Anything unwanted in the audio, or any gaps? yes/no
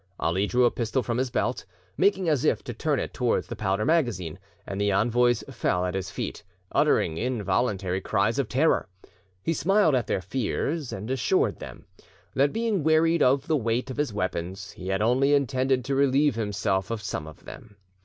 no